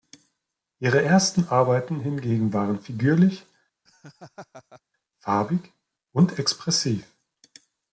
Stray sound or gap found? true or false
true